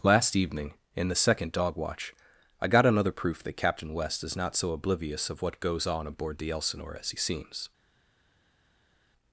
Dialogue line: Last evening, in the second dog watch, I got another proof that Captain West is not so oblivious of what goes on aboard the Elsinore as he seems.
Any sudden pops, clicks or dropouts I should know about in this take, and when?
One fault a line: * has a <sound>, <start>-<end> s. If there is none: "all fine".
all fine